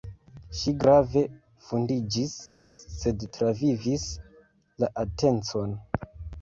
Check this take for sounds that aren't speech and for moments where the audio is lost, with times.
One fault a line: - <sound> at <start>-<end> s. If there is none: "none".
none